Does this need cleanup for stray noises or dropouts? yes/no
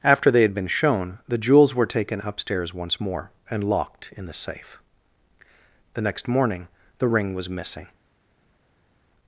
no